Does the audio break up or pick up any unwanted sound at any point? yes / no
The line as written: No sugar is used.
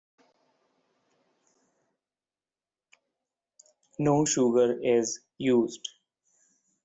no